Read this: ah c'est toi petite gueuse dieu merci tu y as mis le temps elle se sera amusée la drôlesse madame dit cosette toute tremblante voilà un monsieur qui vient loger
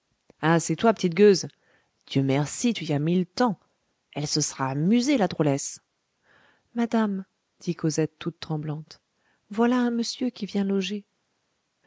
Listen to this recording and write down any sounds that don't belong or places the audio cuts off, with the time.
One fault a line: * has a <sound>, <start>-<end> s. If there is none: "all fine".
all fine